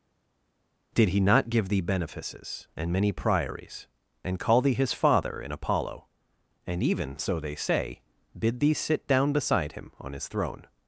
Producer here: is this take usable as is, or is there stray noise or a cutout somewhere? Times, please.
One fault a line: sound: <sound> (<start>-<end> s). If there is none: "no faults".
no faults